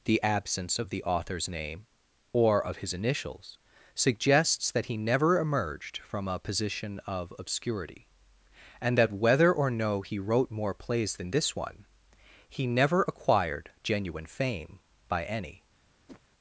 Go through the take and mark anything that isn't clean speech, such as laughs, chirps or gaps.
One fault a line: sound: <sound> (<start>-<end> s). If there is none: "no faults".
sound: whoosh (16.1-16.2 s)